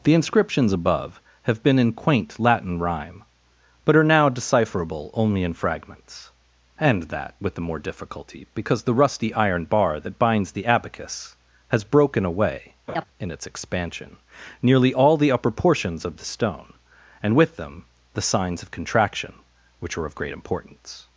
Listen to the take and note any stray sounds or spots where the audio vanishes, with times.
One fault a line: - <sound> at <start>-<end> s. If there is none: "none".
- laugh at 12.9-13.0 s